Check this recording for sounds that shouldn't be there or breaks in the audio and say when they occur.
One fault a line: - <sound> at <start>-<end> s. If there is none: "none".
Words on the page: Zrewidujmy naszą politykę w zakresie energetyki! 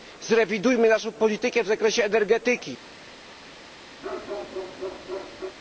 - bark at 4.0-5.6 s